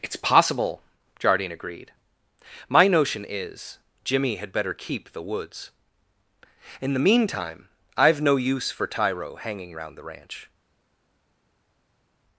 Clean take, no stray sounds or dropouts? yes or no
yes